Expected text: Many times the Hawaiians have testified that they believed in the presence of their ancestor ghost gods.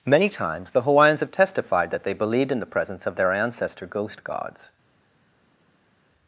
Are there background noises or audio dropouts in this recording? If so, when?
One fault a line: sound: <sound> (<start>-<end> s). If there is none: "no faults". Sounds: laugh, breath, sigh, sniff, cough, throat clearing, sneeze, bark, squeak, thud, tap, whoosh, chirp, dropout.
no faults